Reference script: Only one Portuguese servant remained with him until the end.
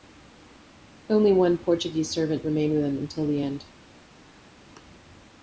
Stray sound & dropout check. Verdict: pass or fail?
pass